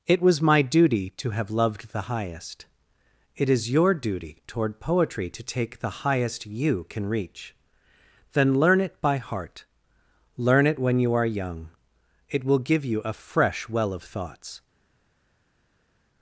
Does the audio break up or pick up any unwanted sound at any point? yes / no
no